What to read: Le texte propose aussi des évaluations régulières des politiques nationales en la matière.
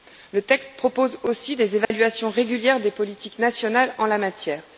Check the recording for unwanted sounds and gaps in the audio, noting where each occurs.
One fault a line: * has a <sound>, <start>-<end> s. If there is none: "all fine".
* has a dropout, 1.8-1.9 s